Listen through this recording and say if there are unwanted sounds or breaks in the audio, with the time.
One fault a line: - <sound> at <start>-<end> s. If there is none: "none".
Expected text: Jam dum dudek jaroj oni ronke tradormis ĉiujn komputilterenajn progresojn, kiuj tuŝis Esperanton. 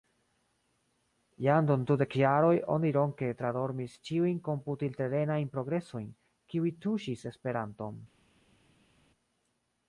none